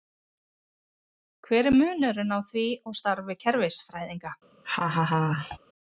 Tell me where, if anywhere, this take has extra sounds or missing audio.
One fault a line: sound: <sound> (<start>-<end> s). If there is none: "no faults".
sound: laugh (4.6-5.6 s)